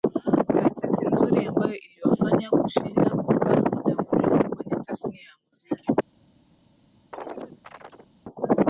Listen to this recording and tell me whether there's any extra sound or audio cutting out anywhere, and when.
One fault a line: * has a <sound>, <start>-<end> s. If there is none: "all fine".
* has a chirp, 7.1-8.1 s